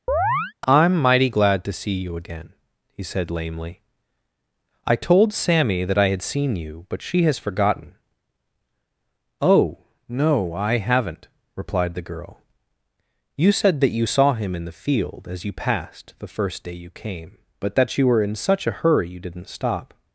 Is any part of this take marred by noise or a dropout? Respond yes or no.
yes